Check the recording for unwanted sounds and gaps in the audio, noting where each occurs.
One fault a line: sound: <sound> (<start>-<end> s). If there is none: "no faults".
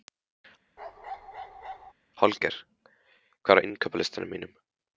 sound: bark (0.8-1.9 s)